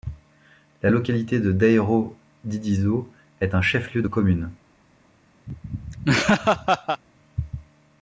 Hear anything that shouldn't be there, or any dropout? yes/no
yes